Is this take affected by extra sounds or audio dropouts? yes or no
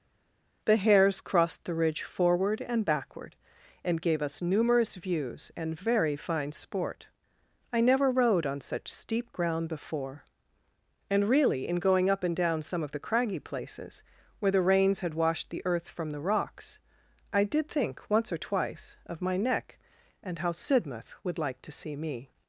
no